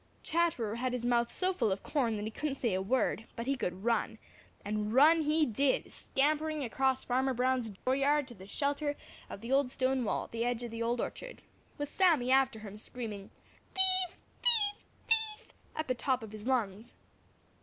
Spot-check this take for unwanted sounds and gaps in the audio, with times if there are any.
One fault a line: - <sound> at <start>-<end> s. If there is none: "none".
- dropout at 7.8-7.9 s